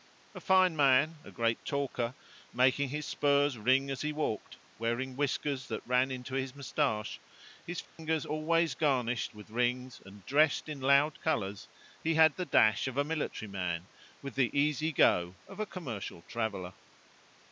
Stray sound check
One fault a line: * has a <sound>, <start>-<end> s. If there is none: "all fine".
* has a dropout, 7.8-8.0 s